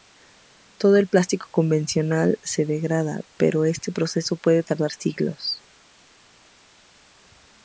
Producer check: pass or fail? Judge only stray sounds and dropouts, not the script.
pass